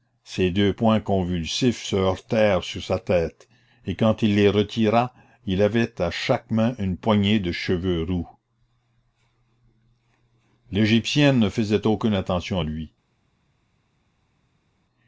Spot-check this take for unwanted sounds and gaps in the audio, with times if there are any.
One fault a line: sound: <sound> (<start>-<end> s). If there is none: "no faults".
no faults